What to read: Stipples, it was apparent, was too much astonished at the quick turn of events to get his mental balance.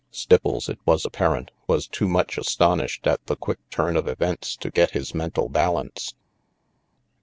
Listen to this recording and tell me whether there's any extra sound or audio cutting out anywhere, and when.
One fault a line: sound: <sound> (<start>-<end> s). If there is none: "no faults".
no faults